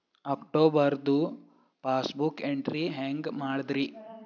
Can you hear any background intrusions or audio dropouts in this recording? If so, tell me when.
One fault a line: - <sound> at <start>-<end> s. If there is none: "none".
none